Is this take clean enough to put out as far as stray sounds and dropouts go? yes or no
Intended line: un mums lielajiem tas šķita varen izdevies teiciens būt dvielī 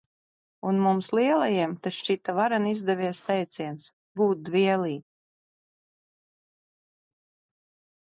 yes